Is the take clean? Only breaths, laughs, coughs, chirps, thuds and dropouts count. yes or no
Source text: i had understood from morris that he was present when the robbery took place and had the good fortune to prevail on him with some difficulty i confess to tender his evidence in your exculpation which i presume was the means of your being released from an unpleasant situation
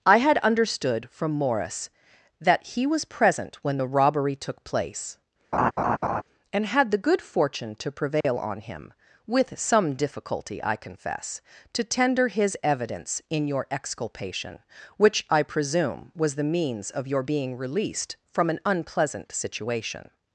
no